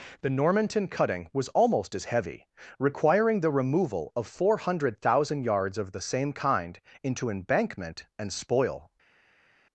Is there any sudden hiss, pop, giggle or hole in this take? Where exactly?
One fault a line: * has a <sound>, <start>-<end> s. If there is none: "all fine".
all fine